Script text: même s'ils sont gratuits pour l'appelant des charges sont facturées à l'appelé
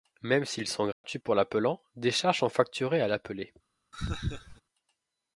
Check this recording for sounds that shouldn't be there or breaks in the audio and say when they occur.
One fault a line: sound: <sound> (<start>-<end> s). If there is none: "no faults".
sound: dropout (0.9-1.0 s)
sound: laugh (3.9-4.6 s)